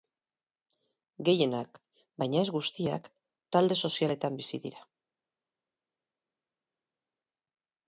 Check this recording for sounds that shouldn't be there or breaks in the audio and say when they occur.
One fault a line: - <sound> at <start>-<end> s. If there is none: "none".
none